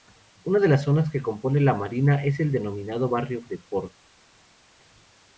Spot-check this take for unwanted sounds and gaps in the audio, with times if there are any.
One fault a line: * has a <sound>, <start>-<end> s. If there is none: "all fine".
all fine